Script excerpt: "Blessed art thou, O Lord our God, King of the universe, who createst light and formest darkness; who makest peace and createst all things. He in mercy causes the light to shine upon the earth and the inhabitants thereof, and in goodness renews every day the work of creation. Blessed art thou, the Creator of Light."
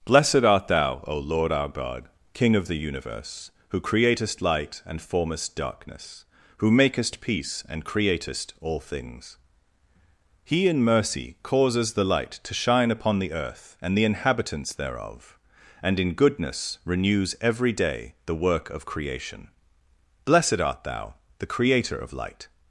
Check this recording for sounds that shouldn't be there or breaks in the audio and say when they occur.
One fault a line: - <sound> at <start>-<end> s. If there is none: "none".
none